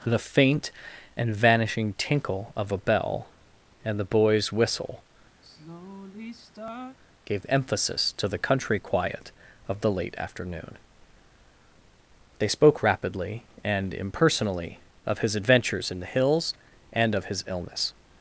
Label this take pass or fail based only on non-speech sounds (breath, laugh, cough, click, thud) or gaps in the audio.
fail